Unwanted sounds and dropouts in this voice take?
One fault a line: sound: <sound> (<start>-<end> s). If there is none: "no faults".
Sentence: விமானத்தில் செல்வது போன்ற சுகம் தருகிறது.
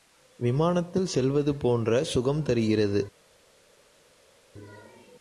no faults